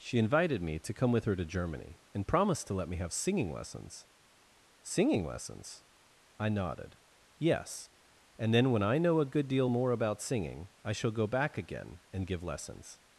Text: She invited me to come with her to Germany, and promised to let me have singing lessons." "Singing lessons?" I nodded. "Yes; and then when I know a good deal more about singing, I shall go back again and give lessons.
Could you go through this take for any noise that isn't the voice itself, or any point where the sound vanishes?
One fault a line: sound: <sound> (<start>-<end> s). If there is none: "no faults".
no faults